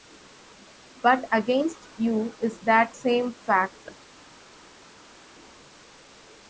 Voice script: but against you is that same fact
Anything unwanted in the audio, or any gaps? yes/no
no